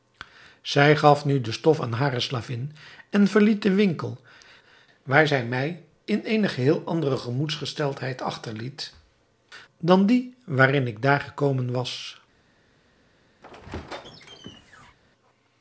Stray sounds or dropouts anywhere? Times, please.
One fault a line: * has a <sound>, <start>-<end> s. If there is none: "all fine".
* has a squeak, 13.4-15.0 s